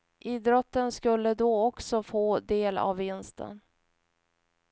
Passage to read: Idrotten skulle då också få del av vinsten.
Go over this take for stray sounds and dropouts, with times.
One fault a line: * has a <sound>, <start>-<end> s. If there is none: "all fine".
all fine